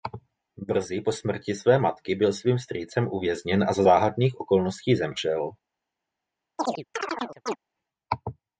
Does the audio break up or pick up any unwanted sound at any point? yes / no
yes